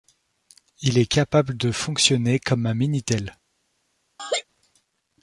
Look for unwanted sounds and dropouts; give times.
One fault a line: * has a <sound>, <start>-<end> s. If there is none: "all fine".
* has a laugh, 4.2-4.4 s